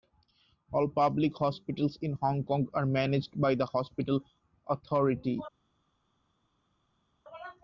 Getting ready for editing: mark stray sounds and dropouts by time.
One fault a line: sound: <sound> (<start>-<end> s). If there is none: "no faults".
no faults